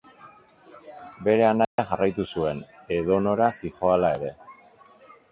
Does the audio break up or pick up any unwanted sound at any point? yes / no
yes